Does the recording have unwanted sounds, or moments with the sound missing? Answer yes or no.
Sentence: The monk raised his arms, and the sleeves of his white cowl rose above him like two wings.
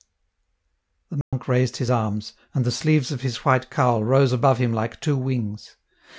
yes